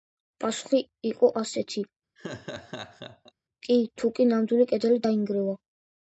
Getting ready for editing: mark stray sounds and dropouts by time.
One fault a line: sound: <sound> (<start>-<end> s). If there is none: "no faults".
sound: laugh (2.2-3.3 s)